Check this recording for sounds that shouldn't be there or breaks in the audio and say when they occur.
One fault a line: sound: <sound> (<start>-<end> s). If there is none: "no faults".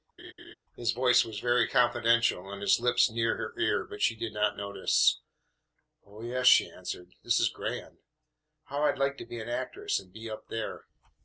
sound: laugh (0.2-0.5 s)